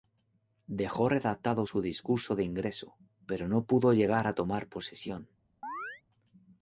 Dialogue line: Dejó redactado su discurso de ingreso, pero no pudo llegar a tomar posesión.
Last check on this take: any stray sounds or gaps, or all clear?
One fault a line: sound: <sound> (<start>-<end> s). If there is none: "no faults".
sound: chirp (5.6-6.0 s)